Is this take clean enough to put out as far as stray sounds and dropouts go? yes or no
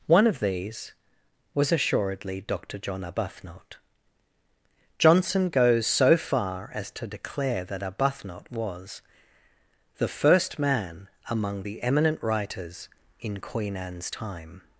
yes